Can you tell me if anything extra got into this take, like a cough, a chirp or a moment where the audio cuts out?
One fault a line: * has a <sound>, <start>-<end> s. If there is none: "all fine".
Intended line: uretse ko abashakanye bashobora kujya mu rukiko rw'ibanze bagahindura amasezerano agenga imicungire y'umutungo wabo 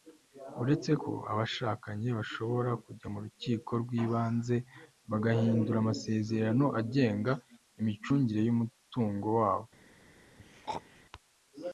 * has a throat clearing, 10.4-11.0 s